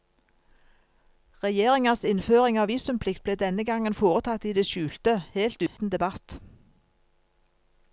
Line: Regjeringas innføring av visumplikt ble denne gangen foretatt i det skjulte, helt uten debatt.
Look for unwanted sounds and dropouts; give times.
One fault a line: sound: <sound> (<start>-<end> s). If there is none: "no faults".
sound: dropout (5.7-5.8 s)